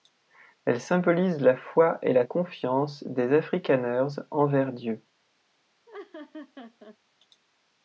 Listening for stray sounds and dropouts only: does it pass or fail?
fail